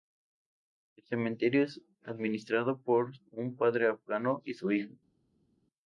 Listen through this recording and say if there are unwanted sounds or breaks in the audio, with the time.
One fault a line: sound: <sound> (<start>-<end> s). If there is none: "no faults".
no faults